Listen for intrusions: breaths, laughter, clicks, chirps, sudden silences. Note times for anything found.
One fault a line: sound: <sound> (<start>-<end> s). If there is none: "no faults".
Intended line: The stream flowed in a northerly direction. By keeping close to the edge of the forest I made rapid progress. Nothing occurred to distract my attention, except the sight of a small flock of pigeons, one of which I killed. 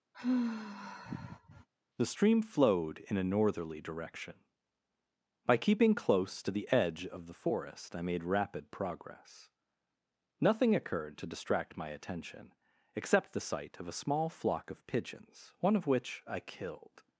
sound: sigh (0.1-1.7 s)